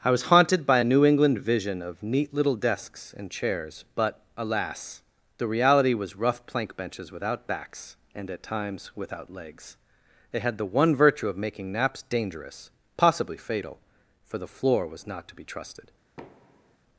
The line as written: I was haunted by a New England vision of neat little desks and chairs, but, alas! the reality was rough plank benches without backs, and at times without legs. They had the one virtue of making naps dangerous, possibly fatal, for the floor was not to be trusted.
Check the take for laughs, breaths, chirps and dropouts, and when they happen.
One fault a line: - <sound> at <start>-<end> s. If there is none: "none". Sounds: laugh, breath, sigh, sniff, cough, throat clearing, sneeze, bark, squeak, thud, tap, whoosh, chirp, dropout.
- thud at 16.2-16.8 s